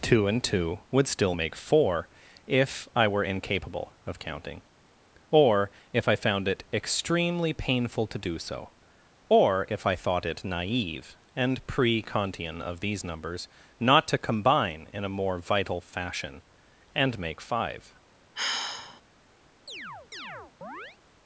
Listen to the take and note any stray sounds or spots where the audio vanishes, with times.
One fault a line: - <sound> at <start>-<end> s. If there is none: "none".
- sigh at 18.3-19.0 s
- chirp at 19.7-21.0 s